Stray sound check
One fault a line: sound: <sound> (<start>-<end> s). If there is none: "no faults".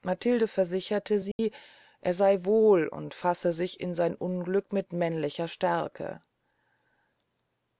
sound: dropout (1.3-1.4 s)